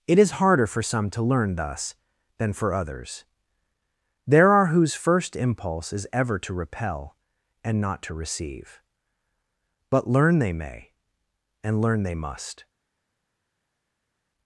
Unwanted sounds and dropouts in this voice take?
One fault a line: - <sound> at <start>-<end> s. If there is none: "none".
none